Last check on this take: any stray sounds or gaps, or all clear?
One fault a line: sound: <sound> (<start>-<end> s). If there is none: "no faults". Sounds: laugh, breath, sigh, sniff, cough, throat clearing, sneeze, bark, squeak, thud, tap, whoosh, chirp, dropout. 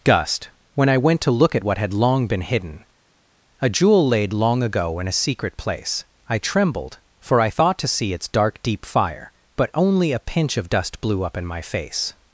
no faults